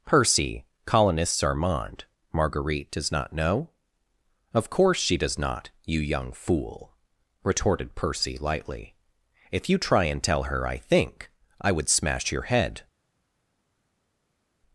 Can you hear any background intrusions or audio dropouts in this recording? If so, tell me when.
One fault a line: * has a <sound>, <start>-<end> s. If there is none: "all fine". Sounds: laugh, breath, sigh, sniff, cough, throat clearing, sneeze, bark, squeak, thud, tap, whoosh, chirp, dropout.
all fine